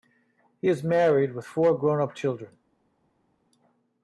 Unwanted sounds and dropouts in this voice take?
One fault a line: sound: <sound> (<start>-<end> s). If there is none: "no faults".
no faults